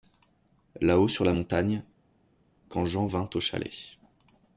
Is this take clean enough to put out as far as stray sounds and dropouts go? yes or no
yes